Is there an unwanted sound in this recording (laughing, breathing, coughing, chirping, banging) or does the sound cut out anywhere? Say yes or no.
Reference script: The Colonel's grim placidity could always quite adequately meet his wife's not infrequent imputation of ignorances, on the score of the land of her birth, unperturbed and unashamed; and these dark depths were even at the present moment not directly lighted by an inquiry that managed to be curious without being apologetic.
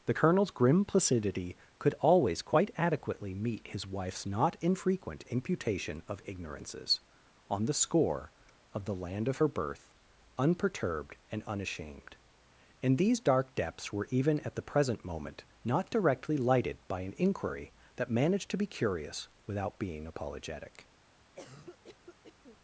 yes